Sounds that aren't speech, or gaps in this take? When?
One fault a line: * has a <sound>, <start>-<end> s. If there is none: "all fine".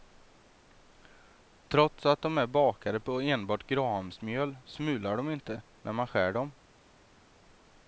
all fine